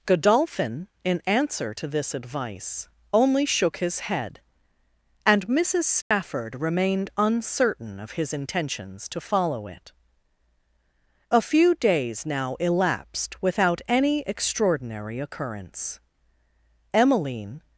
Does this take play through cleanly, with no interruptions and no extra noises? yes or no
no